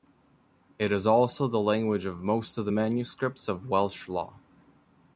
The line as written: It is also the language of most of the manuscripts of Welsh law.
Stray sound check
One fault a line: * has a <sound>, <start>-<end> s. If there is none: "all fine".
all fine